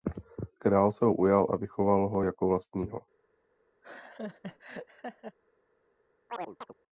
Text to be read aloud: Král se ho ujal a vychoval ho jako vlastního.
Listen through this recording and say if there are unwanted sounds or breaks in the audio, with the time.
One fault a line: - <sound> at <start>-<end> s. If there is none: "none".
- laugh at 3.8-5.4 s
- chirp at 6.3-6.7 s